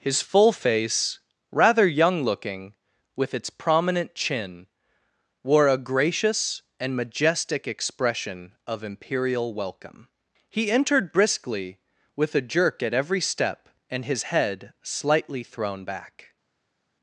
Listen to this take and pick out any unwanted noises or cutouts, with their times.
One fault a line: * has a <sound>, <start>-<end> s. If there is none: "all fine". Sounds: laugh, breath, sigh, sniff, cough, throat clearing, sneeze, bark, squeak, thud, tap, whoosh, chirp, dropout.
all fine